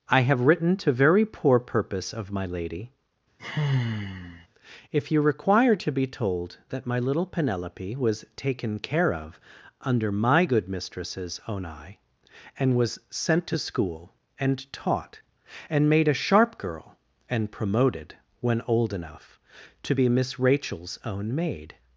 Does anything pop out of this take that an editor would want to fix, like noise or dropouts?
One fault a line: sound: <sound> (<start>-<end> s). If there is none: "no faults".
sound: sigh (3.4-4.5 s)